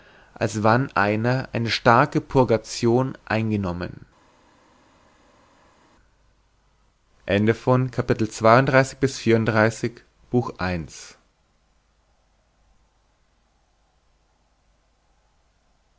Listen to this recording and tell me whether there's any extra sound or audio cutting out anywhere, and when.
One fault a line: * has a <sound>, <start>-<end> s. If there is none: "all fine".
all fine